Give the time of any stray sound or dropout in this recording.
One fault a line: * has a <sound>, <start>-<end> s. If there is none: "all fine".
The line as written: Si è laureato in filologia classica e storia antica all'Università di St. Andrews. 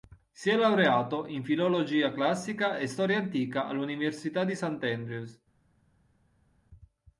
all fine